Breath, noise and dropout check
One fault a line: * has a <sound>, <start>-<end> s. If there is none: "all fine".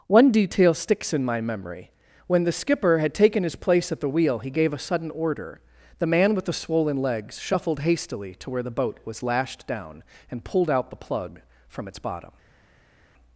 all fine